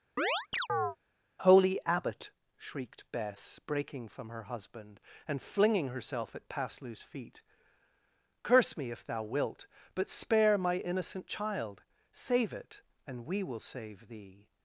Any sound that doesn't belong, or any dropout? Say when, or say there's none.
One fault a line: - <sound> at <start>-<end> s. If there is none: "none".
- chirp at 0.2-1.0 s